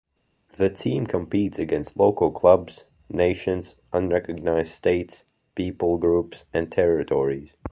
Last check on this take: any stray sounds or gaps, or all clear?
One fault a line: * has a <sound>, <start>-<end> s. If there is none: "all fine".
all fine